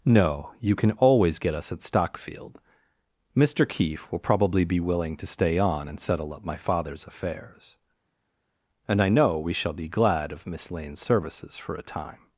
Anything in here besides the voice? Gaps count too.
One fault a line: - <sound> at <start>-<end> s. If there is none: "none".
none